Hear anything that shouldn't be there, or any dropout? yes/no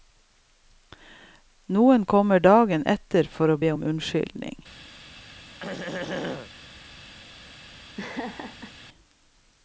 yes